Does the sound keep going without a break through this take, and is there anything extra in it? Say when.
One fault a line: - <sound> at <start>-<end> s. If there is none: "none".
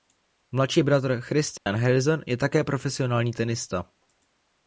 - dropout at 1.6-1.7 s